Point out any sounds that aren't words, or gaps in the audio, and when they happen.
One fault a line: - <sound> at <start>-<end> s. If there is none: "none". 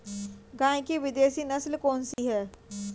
- dropout at 2.1-2.2 s